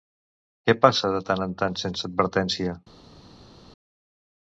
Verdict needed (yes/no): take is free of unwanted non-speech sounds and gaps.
yes